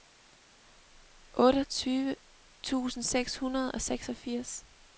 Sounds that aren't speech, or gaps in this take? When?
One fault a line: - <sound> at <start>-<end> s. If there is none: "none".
none